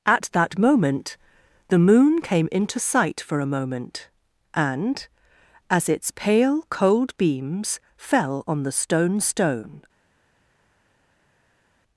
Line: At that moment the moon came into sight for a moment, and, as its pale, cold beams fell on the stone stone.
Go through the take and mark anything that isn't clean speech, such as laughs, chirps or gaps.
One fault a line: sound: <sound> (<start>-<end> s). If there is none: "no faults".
no faults